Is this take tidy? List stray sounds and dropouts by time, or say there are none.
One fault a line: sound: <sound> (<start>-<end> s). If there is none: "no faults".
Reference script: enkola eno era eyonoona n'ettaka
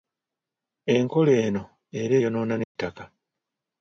sound: dropout (2.6-2.8 s)